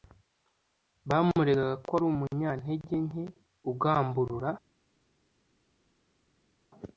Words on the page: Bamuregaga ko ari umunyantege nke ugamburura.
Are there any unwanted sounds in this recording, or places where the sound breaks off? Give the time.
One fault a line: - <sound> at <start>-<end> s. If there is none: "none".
none